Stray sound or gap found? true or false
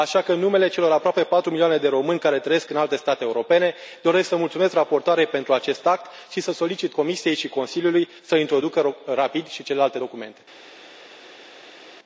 false